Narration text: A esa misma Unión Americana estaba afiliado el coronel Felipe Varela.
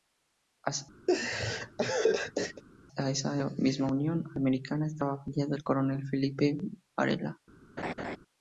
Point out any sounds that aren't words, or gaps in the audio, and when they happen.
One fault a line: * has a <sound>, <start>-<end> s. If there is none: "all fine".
* has a laugh, 1.1-2.6 s
* has a laugh, 7.8-8.2 s